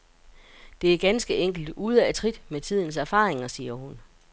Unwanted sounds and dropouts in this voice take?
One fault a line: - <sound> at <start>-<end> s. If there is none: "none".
none